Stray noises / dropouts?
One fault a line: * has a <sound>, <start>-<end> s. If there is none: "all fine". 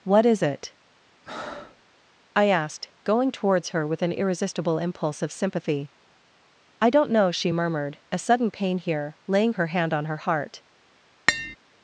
* has a breath, 1.2-1.8 s
* has a tap, 11.3-11.6 s